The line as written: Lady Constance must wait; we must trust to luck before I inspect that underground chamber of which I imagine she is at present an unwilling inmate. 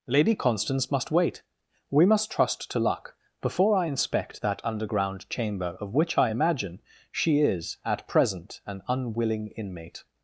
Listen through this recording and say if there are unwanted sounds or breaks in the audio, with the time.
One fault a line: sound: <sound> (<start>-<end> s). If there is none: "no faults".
no faults